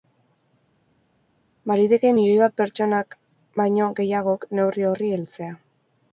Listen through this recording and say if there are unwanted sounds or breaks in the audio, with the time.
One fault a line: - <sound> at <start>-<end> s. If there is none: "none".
none